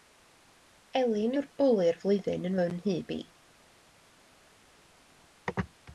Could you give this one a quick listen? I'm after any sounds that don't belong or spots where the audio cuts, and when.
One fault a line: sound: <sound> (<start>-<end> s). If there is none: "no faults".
no faults